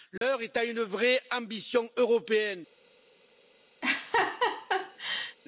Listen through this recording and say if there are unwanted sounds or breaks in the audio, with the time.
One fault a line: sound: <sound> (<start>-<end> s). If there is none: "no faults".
sound: dropout (0.2-0.2 s)
sound: laugh (3.8-5.4 s)